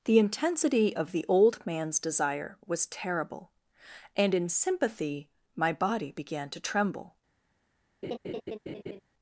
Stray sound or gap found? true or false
true